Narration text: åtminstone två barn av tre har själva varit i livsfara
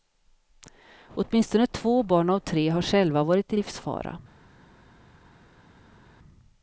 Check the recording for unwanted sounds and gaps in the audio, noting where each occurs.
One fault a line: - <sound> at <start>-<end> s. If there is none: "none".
none